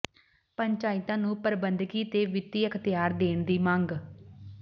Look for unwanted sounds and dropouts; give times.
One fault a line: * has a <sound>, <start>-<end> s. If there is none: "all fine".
all fine